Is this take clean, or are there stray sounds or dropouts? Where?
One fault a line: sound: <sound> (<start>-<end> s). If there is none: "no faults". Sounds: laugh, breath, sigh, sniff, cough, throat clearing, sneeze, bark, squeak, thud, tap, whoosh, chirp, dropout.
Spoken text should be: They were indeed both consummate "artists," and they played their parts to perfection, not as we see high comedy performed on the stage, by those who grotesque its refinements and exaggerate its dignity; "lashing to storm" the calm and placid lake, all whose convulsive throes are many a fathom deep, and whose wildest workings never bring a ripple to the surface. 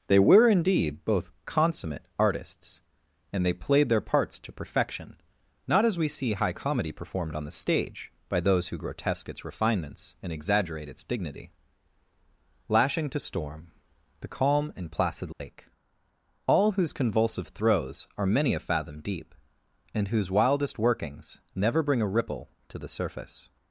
sound: dropout (15.3-15.4 s)